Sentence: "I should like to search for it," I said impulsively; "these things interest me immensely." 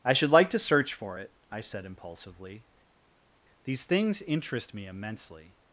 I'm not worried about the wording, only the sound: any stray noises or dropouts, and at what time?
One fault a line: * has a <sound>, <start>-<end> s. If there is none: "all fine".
all fine